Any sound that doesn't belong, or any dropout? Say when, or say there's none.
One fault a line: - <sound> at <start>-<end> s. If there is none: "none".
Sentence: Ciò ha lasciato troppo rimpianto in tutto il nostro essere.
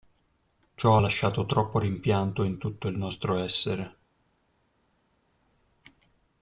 none